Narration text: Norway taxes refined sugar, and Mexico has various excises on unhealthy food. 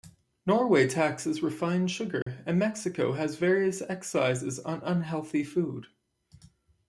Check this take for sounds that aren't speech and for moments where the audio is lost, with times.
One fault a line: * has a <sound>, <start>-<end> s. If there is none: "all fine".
* has a dropout, 2.2-2.3 s